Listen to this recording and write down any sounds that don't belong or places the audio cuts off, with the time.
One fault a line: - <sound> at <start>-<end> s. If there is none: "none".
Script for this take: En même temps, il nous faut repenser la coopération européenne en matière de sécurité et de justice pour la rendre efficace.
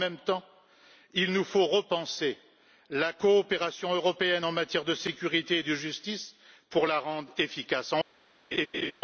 - laugh at 8.5-8.9 s